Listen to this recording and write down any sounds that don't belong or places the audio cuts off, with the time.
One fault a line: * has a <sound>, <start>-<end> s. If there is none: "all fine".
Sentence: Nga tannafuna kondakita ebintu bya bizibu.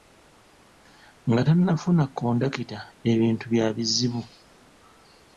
all fine